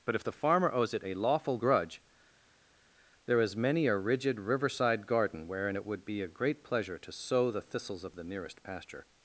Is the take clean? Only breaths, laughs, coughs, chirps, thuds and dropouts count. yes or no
yes